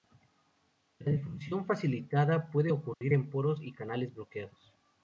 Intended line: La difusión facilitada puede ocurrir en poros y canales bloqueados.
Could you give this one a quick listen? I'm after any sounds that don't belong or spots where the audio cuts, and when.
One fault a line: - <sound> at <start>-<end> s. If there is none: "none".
- dropout at 2.9-3.0 s